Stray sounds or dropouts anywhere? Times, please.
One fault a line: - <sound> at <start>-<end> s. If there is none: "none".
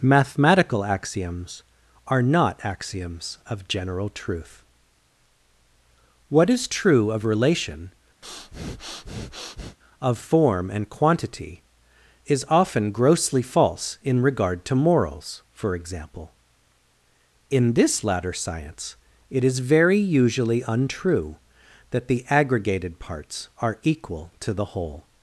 - breath at 8.2-9.8 s